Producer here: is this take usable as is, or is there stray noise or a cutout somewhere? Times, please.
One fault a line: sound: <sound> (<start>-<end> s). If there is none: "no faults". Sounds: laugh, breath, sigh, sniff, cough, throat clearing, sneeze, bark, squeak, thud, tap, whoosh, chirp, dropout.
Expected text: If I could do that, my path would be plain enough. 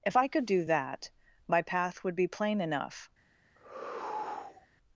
sound: sigh (3.6-4.7 s)